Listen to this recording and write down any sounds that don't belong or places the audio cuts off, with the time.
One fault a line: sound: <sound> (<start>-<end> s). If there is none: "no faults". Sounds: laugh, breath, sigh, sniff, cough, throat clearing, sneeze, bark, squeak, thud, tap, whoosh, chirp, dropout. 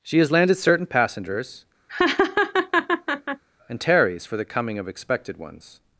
sound: laugh (1.9-3.4 s)